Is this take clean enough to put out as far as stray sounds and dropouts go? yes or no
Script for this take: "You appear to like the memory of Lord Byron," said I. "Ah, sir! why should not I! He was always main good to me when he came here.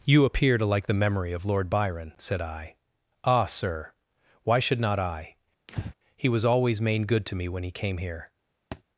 no